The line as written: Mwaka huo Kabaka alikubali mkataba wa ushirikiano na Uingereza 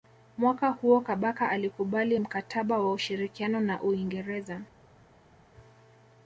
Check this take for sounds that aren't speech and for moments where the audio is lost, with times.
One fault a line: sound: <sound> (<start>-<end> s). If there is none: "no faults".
no faults